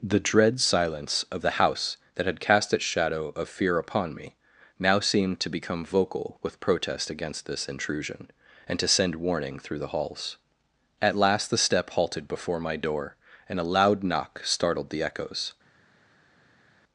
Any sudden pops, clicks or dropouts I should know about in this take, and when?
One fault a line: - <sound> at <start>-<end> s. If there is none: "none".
none